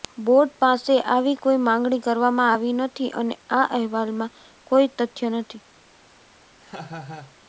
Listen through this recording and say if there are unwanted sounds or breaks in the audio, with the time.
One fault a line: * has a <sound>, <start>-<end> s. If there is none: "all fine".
* has a laugh, 6.6-7.4 s